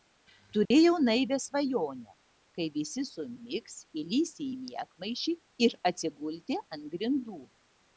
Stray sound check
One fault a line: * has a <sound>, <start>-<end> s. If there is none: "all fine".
* has a dropout, 0.7-0.7 s